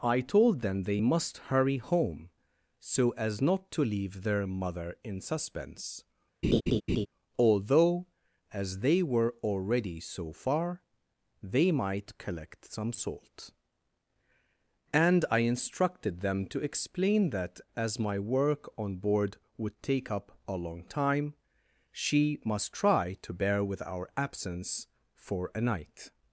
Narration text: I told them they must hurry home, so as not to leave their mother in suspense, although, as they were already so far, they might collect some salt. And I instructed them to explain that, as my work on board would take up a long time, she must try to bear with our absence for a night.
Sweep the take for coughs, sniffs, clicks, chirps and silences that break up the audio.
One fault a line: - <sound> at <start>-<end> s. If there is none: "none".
- laugh at 6.4-7.1 s